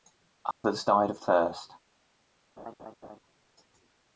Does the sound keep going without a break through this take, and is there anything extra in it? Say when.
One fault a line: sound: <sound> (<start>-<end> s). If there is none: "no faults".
sound: dropout (0.5-0.6 s)
sound: laugh (2.6-3.2 s)